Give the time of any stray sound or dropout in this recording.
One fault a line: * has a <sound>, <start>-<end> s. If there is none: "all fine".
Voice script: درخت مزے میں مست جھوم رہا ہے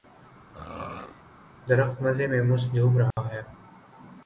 * has a throat clearing, 0.5-1.2 s
* has a dropout, 3.1-3.2 s